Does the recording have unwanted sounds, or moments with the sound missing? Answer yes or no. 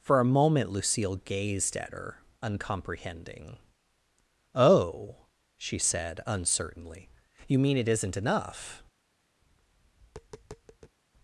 yes